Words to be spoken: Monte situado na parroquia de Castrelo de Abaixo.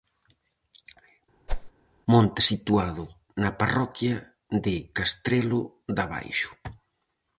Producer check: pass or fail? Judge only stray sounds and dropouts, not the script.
fail